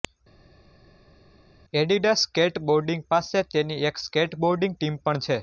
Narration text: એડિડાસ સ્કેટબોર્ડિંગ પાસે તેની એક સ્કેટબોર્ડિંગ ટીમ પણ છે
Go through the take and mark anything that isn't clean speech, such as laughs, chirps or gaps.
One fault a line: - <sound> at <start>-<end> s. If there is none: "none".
none